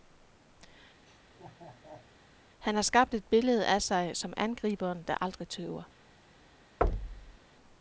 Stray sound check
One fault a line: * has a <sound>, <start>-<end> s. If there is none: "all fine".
* has a laugh, 1.1-2.1 s
* has a thud, 6.8-7.4 s